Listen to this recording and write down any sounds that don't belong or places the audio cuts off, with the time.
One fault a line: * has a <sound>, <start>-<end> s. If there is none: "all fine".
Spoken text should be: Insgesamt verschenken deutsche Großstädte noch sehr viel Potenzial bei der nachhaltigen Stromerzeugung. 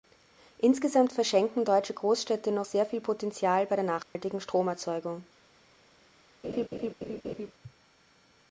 * has a dropout, 4.0-4.2 s
* has a laugh, 6.4-7.5 s